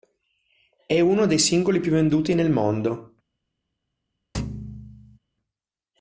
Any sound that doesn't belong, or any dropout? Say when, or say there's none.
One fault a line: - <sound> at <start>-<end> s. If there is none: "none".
- thud at 4.3-5.2 s